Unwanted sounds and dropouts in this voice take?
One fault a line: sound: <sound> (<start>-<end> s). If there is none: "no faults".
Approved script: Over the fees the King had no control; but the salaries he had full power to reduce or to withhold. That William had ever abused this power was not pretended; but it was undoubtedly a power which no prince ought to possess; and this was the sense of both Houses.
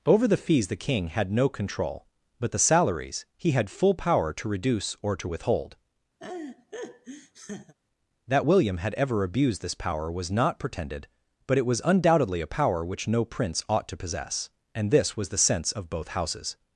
sound: laugh (6.2-7.7 s)